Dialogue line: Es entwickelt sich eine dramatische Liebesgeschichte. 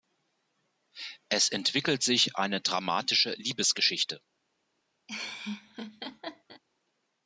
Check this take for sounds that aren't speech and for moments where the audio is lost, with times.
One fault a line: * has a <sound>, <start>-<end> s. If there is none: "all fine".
* has a laugh, 5.1-6.6 s